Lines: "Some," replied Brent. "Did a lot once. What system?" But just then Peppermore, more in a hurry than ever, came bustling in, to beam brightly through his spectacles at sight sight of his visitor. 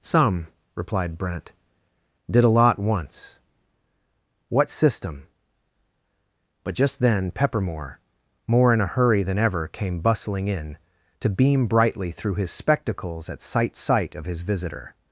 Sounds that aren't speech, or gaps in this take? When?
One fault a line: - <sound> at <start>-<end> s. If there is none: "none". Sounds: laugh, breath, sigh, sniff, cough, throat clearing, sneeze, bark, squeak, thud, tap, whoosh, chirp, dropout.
none